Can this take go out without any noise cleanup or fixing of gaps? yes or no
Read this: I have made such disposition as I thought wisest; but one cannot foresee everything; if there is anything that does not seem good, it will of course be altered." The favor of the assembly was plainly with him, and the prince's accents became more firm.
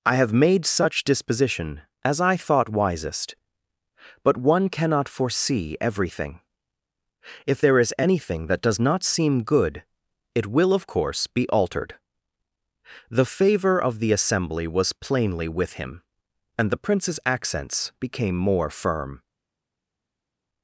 yes